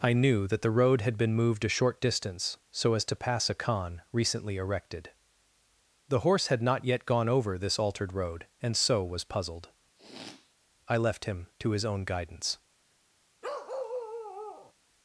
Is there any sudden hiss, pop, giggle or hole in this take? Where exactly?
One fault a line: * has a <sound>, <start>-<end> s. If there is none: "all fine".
* has a sniff, 10.0-10.5 s
* has a bark, 13.4-14.7 s